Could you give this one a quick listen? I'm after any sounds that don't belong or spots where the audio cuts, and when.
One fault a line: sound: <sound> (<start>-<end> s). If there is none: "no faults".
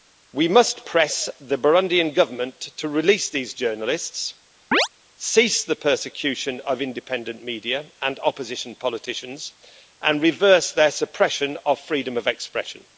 sound: chirp (4.7-4.9 s)